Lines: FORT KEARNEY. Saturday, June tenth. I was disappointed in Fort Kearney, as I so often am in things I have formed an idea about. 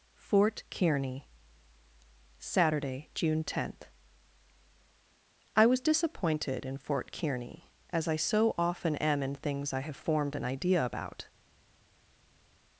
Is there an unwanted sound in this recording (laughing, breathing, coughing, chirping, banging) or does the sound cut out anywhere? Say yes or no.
no